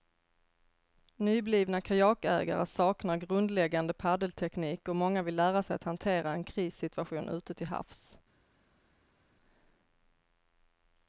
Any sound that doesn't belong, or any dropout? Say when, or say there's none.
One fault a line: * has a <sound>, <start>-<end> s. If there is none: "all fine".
all fine